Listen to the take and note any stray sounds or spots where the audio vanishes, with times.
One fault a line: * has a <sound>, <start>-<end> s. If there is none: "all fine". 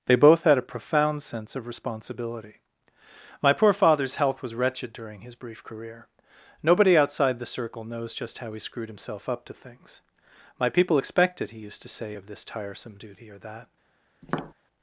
* has a tap, 14.2-14.5 s